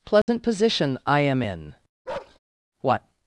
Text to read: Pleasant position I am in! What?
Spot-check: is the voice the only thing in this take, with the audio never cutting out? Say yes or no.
no